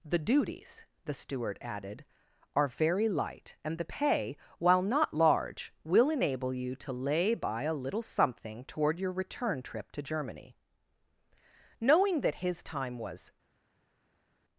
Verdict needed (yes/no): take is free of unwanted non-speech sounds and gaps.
yes